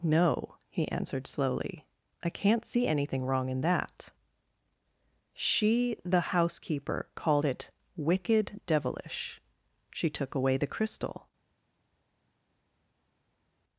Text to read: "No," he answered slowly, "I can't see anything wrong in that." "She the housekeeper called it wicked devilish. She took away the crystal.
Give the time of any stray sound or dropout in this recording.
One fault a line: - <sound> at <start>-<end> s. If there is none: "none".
none